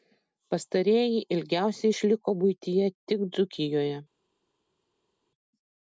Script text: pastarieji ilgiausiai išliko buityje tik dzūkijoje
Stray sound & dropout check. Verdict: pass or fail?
pass